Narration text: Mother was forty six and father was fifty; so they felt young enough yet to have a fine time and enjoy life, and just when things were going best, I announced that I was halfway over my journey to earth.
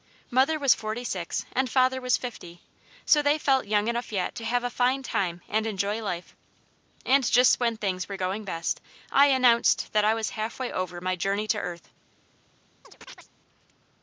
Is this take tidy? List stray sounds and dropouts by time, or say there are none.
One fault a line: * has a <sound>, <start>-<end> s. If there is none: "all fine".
* has a chirp, 12.8-13.3 s